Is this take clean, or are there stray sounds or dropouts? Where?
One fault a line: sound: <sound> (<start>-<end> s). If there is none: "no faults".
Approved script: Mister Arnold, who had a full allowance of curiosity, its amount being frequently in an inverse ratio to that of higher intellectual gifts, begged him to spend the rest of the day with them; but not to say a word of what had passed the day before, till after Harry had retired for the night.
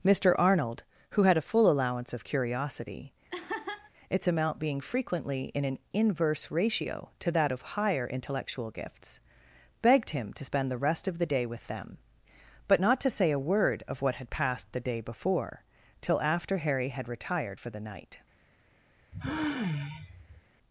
sound: laugh (3.3-3.9 s)
sound: sigh (19.1-20.4 s)